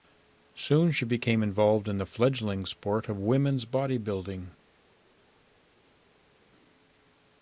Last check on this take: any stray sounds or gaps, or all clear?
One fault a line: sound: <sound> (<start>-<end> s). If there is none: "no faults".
no faults